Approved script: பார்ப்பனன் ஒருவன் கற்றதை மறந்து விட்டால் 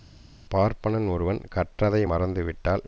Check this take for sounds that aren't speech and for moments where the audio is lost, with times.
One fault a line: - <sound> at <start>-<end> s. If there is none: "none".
none